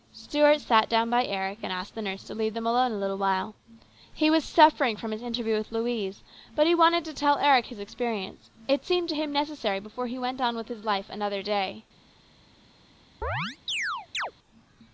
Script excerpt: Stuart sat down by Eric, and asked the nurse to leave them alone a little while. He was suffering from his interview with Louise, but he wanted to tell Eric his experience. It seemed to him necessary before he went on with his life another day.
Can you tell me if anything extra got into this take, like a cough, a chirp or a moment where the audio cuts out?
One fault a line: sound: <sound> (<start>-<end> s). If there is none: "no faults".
sound: chirp (13.2-14.3 s)